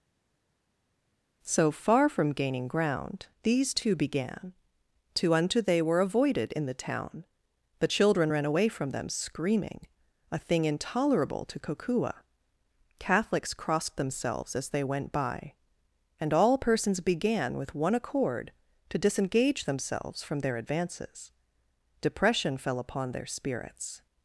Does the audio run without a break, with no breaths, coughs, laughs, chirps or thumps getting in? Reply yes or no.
yes